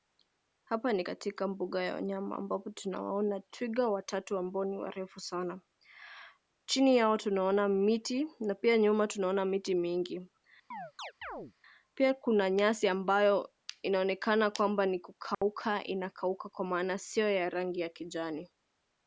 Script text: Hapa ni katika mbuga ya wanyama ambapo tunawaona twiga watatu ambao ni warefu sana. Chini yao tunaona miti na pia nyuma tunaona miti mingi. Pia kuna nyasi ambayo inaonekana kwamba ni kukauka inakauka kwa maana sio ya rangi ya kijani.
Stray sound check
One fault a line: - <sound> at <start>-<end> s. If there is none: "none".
- chirp at 10.7-11.5 s
- dropout at 15.3-15.4 s